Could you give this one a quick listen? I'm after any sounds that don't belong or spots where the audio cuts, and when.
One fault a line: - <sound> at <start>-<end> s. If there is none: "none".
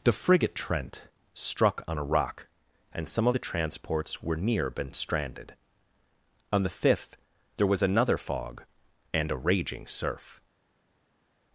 none